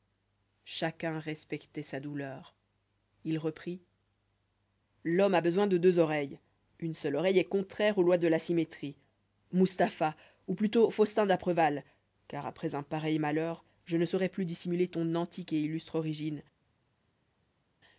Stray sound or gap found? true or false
false